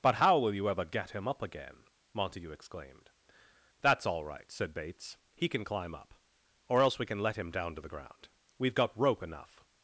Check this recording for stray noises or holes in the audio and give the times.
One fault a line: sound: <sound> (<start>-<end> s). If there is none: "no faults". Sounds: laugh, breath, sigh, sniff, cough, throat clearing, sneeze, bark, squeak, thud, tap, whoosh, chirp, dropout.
no faults